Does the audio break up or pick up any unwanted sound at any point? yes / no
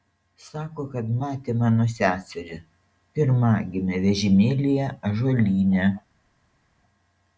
no